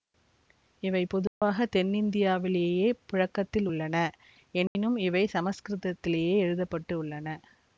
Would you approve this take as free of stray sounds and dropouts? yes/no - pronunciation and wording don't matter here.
no